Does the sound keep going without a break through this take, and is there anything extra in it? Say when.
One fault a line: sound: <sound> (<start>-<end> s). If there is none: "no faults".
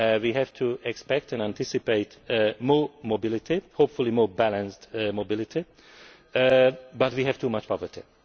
no faults